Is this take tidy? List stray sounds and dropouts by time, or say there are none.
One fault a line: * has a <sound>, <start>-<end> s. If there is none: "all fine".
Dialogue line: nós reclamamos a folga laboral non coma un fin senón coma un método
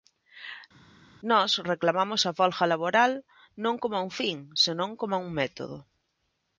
all fine